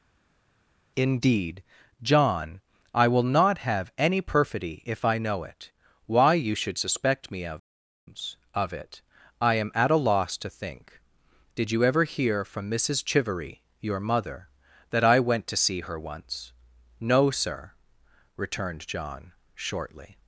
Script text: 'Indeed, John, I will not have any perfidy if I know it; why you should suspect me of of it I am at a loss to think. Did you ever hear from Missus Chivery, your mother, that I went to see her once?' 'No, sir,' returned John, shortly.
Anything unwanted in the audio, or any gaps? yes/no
no